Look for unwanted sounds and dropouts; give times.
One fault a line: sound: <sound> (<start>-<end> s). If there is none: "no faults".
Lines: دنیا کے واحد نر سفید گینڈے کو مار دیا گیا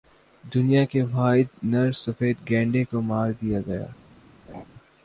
sound: laugh (4.5-4.6 s)